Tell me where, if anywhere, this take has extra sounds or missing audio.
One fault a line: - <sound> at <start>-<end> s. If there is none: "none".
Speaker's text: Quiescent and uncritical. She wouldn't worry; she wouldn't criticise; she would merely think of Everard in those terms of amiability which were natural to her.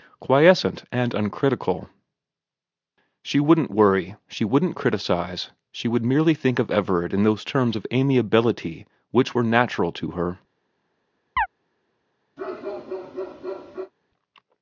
- chirp at 11.4-11.5 s
- bark at 12.4-13.9 s